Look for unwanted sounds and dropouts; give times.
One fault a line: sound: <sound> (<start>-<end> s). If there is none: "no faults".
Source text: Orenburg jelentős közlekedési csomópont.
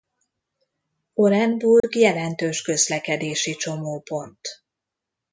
sound: dropout (1.8-1.8 s)